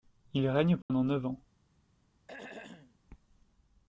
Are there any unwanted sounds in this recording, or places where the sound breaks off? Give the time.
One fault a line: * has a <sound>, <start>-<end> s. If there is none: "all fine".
* has a dropout, 0.8-0.9 s
* has a throat clearing, 2.3-3.0 s